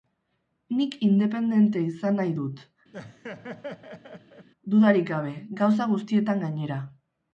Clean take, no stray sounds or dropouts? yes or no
no